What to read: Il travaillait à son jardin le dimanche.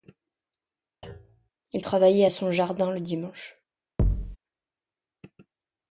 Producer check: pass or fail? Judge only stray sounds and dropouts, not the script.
fail